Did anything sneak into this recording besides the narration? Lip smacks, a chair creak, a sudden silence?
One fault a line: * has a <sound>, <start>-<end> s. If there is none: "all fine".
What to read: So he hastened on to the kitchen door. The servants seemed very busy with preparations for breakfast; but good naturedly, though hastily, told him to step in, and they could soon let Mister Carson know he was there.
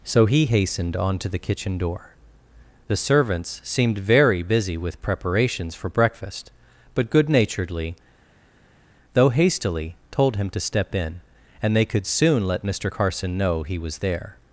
all fine